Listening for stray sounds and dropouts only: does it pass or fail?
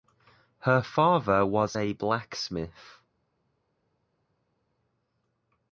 pass